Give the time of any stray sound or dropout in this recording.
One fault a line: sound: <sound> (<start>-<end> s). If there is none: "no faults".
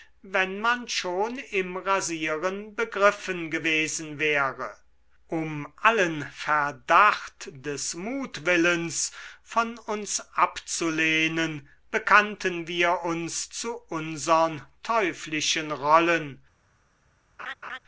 sound: laugh (17.4-17.8 s)